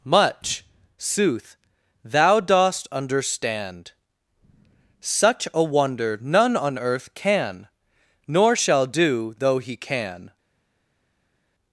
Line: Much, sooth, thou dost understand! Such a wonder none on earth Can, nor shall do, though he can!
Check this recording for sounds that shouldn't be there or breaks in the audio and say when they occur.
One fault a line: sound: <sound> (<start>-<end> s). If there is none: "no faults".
no faults